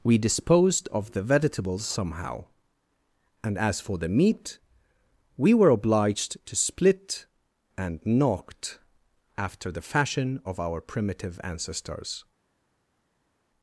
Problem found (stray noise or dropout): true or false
false